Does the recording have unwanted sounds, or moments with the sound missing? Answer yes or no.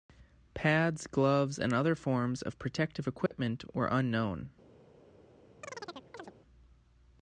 yes